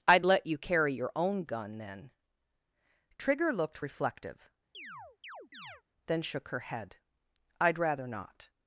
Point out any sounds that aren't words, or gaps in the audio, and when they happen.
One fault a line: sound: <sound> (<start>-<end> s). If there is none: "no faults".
sound: chirp (4.7-5.8 s)